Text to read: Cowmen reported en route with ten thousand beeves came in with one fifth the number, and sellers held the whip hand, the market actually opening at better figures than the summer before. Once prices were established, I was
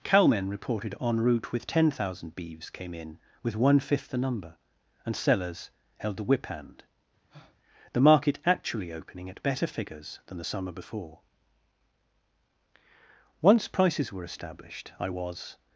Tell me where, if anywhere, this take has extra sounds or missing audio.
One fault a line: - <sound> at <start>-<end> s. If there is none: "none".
- breath at 7.3-7.6 s